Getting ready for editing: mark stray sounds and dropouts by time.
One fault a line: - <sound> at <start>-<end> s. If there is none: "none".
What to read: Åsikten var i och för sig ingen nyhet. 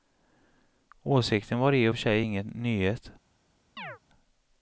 - chirp at 3.8-4.0 s